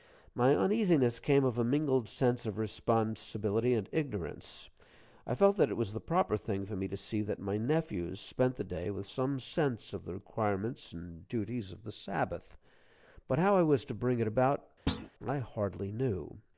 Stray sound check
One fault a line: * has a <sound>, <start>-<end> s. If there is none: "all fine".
* has a thud, 14.9-15.1 s